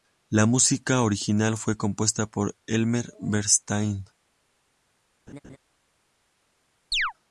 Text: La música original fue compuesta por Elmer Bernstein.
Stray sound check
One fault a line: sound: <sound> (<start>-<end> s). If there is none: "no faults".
sound: laugh (5.3-5.6 s)
sound: chirp (6.9-7.1 s)